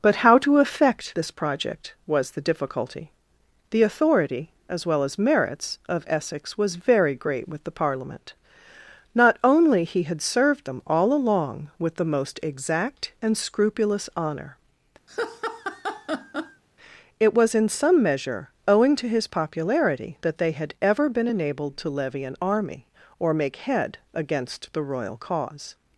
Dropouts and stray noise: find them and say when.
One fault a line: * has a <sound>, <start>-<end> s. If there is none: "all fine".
* has a laugh, 15.1-16.6 s